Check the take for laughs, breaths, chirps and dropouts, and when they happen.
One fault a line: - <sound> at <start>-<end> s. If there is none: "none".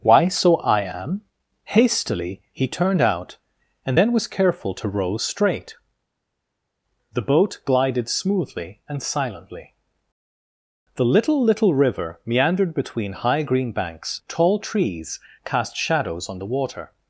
none